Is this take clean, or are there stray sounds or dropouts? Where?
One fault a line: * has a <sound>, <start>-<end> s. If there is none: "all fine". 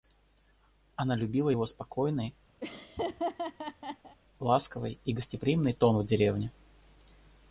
* has a laugh, 2.6-4.2 s